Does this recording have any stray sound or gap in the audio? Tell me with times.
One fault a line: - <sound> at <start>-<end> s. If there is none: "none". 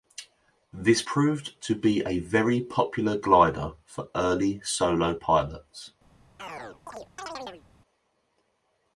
- chirp at 6.4-7.6 s